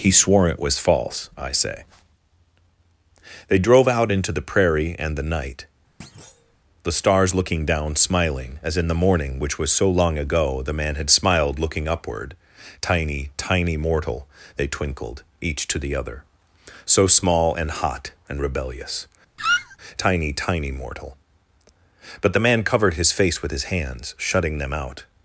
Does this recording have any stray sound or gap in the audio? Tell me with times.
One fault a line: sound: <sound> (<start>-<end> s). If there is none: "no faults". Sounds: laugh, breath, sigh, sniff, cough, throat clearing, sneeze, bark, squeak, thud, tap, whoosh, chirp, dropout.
sound: thud (6.0-6.6 s)
sound: squeak (19.4-19.8 s)